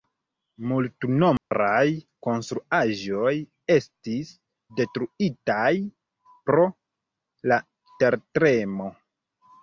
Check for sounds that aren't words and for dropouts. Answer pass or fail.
fail